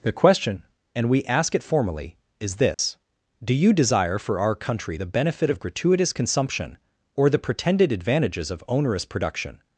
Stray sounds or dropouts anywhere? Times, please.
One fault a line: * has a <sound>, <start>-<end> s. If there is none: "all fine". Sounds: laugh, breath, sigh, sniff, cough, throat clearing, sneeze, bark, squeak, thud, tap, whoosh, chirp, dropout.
* has a dropout, 2.7-2.8 s